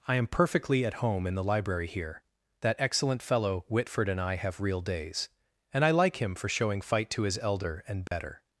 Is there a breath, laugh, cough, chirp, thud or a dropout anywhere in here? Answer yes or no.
yes